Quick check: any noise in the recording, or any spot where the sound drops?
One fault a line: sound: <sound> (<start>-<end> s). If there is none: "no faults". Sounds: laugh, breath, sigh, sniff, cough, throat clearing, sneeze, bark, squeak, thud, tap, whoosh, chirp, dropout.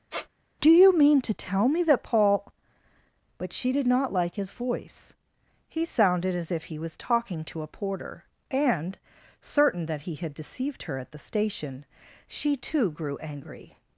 sound: squeak (0.1-0.3 s)